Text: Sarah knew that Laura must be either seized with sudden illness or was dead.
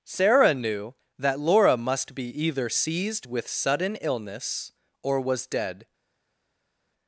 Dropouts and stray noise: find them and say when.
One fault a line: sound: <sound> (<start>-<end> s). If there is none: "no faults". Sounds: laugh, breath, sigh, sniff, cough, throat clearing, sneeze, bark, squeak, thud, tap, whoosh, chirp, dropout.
no faults